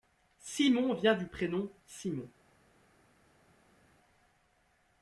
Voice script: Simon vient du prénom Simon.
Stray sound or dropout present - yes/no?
no